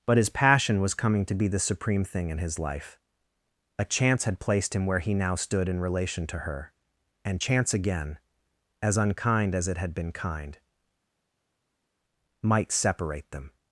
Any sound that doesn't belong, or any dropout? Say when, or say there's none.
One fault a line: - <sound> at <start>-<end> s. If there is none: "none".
none